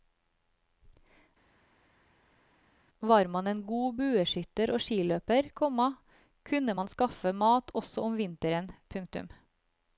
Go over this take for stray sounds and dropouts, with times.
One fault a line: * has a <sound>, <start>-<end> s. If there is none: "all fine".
all fine